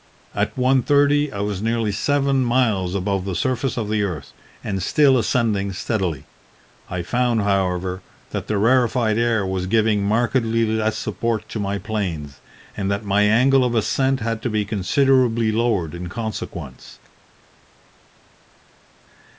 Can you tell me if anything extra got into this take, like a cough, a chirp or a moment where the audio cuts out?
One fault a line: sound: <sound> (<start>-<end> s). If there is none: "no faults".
no faults